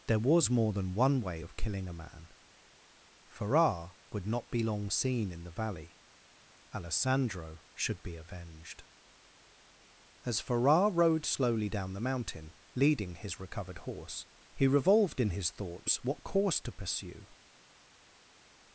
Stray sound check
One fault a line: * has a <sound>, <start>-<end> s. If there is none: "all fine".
all fine